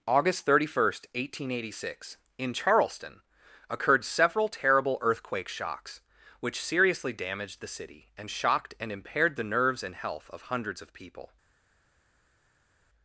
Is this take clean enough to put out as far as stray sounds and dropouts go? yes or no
yes